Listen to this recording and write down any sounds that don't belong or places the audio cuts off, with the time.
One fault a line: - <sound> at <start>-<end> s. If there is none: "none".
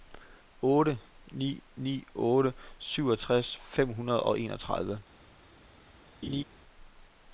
- laugh at 6.2-6.4 s